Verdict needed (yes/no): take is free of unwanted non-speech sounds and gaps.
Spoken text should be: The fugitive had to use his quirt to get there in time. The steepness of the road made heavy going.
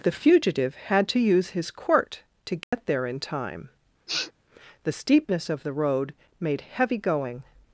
no